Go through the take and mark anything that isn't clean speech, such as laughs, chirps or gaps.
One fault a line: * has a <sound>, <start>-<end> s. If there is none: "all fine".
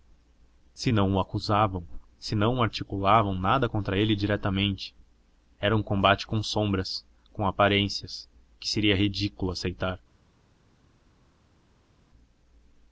all fine